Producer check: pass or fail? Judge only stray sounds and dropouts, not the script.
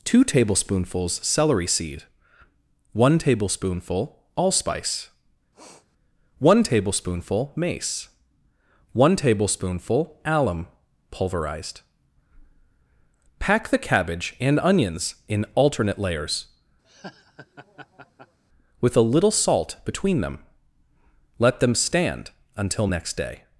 fail